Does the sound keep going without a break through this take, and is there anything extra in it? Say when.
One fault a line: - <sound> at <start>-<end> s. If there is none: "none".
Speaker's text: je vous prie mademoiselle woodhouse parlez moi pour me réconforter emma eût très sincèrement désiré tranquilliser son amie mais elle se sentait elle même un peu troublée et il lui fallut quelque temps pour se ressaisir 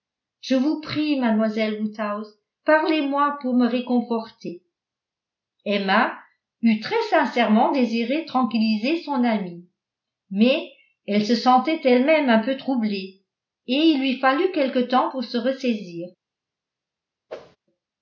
- whoosh at 17.3-17.6 s